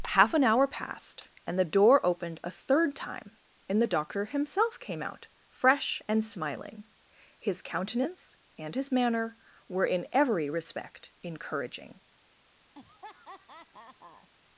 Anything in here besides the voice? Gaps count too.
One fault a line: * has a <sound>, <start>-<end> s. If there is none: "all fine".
* has a laugh, 12.8-14.3 s